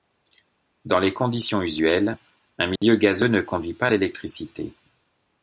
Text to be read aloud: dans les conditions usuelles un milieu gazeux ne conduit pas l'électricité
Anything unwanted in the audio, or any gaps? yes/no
yes